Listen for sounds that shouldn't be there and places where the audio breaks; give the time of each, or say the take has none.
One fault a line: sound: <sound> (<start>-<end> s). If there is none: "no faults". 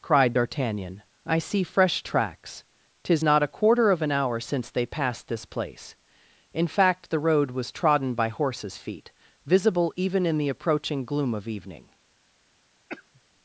sound: cough (12.9-13.2 s)